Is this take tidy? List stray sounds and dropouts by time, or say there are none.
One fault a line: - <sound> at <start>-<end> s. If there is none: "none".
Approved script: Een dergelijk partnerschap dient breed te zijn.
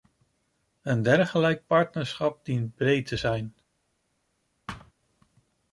- thud at 4.7-4.9 s